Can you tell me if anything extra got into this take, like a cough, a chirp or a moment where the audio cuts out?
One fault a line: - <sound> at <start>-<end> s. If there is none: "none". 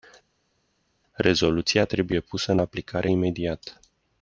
none